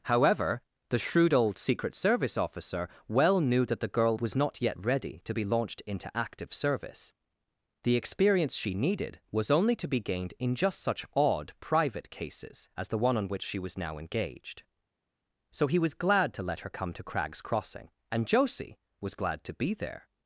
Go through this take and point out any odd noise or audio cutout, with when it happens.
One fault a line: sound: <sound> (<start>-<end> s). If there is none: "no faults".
no faults